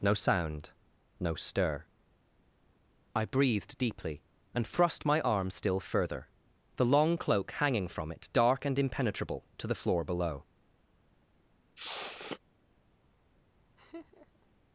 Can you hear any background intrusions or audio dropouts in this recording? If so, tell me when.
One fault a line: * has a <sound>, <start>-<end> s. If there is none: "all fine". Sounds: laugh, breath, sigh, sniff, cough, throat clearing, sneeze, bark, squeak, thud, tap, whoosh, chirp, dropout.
* has a sniff, 11.8-12.4 s
* has a laugh, 13.8-14.5 s